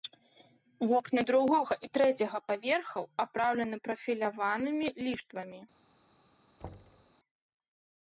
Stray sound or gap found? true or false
true